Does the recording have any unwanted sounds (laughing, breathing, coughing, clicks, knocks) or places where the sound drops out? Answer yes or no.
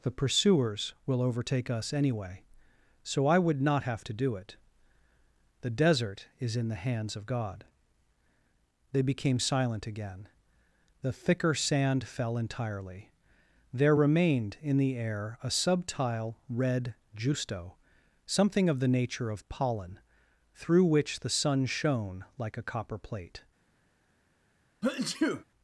yes